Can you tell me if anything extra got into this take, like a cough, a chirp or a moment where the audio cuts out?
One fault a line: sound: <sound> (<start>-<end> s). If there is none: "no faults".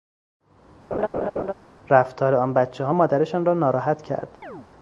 sound: laugh (0.9-1.5 s)
sound: chirp (4.4-4.7 s)